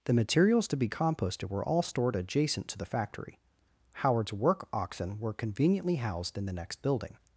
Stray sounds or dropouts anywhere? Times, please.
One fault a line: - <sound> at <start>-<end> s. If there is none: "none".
none